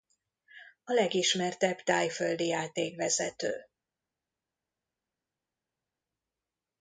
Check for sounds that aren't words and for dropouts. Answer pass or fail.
pass